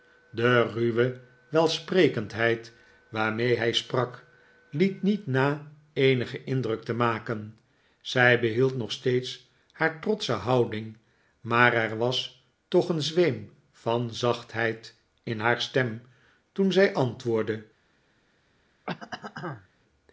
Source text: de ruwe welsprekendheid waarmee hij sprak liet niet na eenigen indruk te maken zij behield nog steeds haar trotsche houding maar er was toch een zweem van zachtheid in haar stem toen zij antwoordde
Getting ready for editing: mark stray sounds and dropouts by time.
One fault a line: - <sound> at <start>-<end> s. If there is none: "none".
- throat clearing at 18.9-19.7 s